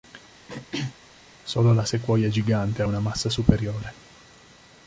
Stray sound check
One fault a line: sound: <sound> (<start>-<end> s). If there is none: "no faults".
sound: throat clearing (0.5-0.9 s)